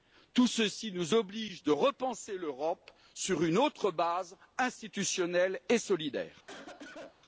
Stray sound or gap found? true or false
true